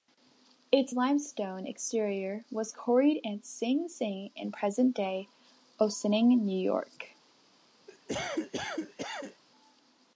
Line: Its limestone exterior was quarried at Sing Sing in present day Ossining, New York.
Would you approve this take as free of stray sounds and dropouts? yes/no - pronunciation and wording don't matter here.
no